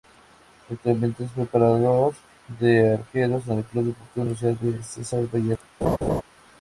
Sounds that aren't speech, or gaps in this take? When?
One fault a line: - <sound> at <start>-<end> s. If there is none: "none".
- laugh at 5.8-6.2 s